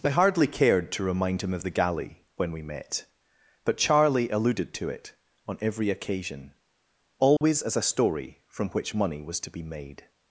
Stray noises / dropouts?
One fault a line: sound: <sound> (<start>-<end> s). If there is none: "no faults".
sound: dropout (7.4-7.4 s)